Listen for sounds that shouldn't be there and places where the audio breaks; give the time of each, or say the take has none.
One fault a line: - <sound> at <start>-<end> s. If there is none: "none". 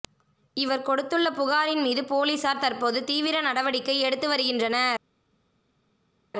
none